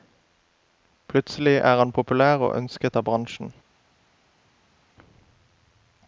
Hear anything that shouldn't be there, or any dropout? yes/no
no